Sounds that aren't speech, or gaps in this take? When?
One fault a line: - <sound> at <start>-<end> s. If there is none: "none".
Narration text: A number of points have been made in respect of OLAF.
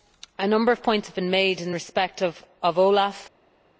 none